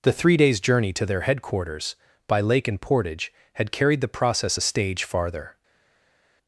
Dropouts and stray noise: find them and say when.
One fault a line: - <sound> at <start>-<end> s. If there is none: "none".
none